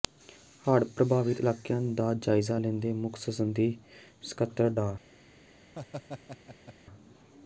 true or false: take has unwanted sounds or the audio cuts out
true